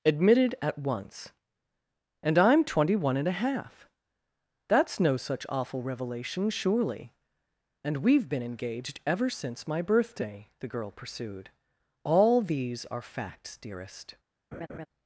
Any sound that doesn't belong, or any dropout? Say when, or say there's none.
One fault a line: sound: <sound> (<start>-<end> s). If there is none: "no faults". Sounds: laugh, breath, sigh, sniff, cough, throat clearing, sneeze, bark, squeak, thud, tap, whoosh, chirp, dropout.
sound: laugh (14.5-14.9 s)